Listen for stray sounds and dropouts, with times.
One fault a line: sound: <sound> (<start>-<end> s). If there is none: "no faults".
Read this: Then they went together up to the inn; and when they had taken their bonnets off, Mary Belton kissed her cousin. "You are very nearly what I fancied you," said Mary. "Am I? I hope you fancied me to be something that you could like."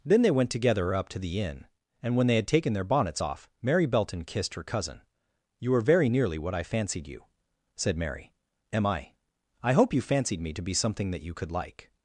no faults